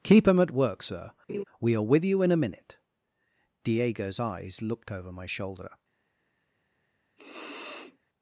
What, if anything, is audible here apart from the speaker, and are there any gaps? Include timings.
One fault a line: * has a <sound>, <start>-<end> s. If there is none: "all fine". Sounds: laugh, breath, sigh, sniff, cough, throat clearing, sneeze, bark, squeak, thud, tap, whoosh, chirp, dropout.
* has a laugh, 1.3-1.4 s
* has a sniff, 7.2-8.0 s